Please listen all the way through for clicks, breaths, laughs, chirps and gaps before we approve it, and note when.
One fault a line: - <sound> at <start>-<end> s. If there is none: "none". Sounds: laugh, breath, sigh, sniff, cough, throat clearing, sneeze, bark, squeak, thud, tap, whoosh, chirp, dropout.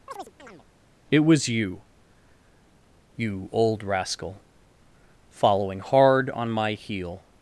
- chirp at 0.1-0.7 s